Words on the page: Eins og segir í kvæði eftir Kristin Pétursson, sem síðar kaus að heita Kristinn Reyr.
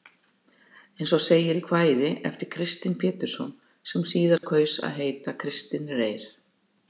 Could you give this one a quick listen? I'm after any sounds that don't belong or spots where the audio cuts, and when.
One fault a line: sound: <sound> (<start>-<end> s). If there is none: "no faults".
sound: dropout (4.4-4.4 s)